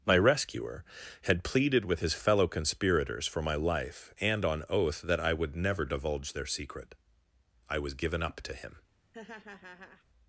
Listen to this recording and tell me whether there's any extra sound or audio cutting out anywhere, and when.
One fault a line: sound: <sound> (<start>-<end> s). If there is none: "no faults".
sound: laugh (9.1-10.0 s)